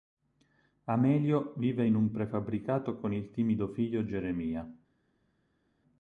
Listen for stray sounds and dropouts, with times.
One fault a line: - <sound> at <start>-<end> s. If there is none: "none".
none